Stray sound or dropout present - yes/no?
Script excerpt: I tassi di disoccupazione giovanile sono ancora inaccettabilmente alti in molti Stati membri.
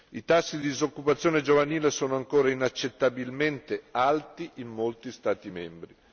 no